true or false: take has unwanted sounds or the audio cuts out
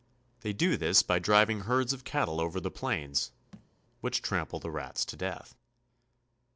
true